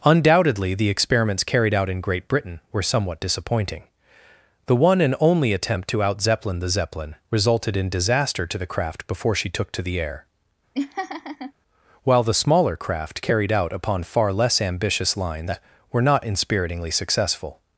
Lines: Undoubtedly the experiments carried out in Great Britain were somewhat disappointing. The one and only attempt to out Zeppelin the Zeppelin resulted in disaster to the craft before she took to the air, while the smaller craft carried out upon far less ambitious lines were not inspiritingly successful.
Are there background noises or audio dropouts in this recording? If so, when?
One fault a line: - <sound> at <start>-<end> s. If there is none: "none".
- laugh at 10.7-11.5 s